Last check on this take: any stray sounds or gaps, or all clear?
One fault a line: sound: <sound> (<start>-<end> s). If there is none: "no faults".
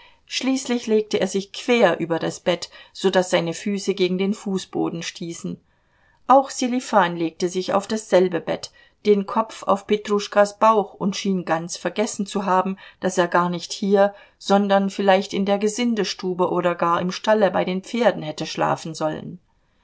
no faults